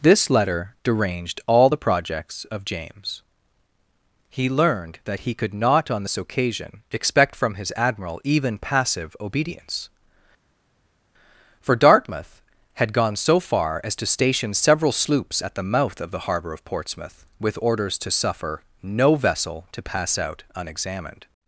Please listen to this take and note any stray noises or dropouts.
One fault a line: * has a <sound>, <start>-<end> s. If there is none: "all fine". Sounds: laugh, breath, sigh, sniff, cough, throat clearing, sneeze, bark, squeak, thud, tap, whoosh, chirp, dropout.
all fine